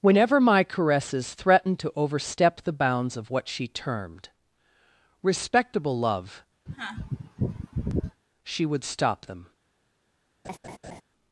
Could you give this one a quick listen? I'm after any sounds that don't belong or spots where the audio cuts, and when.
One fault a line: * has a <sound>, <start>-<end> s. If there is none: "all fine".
* has a sneeze, 6.7-8.2 s
* has a laugh, 10.4-11.0 s